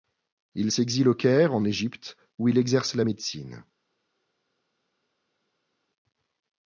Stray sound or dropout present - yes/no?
no